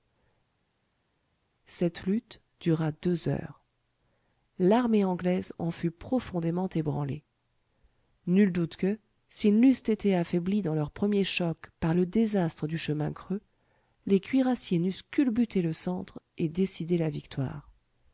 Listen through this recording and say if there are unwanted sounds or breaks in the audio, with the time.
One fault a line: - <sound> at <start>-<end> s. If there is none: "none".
none